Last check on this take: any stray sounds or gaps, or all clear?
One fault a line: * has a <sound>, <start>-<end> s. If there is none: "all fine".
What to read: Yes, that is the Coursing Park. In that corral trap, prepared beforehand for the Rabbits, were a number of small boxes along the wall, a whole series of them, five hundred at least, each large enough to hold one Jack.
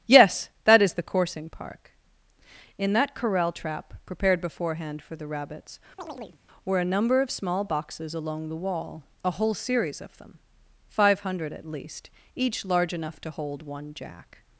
* has a chirp, 6.0-6.4 s